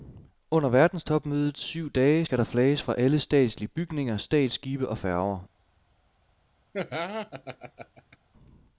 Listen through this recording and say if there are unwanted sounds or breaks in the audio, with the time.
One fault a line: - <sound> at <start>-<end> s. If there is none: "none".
- laugh at 6.7-8.2 s